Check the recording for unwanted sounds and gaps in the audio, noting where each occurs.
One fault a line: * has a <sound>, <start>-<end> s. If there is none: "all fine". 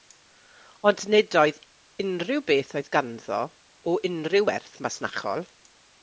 all fine